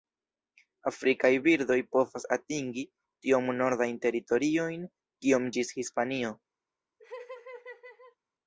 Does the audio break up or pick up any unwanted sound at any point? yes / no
yes